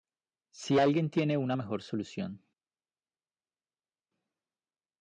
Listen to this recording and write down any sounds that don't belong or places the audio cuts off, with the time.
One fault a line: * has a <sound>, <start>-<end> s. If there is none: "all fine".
all fine